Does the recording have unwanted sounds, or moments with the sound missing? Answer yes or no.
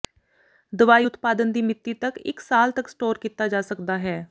no